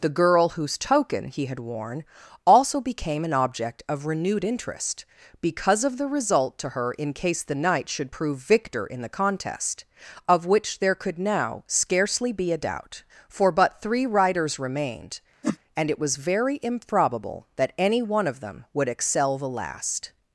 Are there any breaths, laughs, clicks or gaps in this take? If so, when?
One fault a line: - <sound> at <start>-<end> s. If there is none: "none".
- whoosh at 15.4-15.6 s